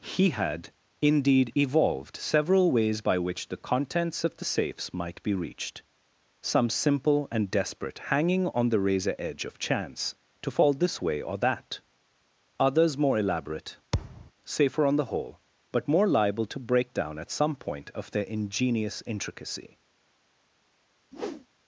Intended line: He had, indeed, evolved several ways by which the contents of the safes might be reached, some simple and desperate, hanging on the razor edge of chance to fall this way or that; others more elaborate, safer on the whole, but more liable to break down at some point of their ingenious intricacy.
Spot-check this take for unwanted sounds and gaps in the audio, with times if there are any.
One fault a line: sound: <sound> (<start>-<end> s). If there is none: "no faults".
sound: thud (13.9-14.3 s)
sound: whoosh (21.1-21.5 s)